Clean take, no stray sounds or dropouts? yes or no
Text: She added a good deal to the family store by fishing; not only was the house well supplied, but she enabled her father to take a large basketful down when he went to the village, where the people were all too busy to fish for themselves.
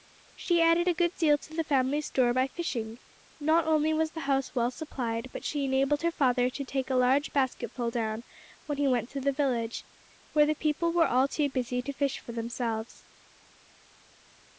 yes